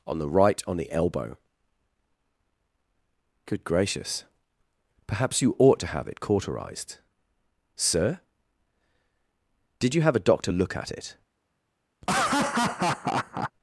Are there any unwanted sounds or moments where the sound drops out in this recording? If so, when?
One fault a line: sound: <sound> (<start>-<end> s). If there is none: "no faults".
sound: laugh (12.0-13.5 s)